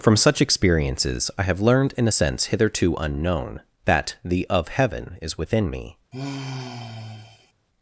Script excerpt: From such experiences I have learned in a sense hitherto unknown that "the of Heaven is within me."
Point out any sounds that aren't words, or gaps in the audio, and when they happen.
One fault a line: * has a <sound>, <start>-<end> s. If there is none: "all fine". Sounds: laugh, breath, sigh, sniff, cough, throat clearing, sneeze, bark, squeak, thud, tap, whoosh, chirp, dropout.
* has a sigh, 6.1-7.5 s